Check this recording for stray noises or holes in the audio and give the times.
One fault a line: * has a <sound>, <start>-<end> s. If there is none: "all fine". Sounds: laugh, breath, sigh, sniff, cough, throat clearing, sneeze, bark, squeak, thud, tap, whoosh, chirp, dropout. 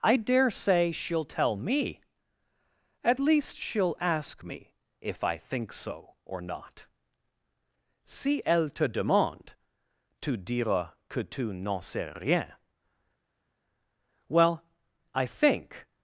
all fine